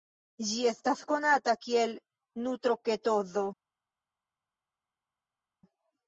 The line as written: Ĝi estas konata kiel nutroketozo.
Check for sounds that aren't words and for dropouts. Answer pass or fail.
pass